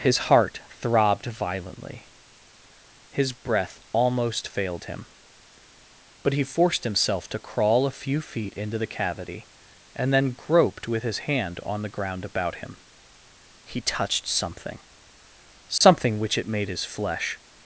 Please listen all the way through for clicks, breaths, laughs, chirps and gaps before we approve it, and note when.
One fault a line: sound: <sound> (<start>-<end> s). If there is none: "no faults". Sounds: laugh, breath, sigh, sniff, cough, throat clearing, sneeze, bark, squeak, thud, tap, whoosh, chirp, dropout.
sound: dropout (15.8-15.8 s)